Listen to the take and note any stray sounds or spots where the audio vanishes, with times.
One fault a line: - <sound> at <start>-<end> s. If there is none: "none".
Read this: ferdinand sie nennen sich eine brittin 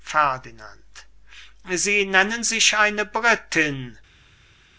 none